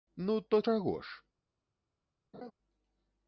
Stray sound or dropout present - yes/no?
yes